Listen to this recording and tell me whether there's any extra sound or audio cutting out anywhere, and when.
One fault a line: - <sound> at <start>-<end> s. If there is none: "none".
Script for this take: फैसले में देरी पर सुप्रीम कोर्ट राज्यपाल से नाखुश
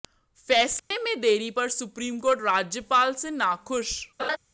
- dropout at 0.8-0.9 s
- laugh at 4.2-4.4 s